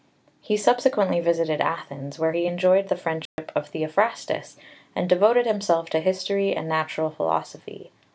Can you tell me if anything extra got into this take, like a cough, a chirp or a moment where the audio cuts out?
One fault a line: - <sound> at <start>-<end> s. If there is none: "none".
- dropout at 3.3-3.4 s